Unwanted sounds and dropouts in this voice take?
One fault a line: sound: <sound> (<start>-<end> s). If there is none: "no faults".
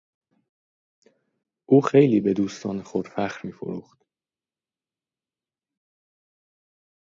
no faults